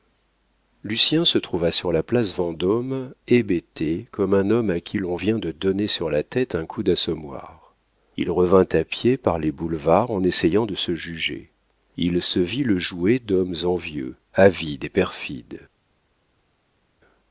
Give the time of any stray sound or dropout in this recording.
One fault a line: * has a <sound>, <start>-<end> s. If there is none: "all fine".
all fine